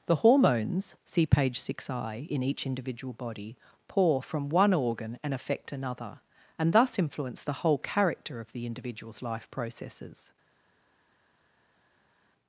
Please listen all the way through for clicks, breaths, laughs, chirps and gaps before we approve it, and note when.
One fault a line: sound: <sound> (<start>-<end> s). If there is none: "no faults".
no faults